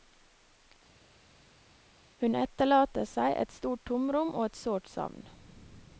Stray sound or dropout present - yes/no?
no